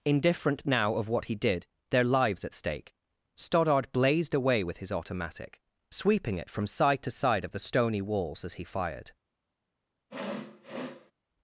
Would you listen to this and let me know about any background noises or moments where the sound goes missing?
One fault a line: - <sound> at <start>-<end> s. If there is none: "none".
- sniff at 10.1-11.1 s